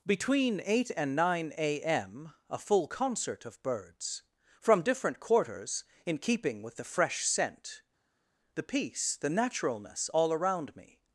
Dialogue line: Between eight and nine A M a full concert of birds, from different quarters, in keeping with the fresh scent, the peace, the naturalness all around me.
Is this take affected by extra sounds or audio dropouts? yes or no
no